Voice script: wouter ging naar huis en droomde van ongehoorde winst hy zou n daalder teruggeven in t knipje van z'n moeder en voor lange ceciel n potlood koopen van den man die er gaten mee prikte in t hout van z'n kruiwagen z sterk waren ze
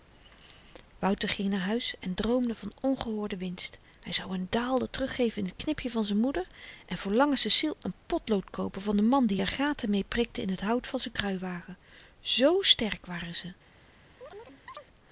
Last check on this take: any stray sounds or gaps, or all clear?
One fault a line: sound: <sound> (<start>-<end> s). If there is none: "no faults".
sound: chirp (14.2-14.9 s)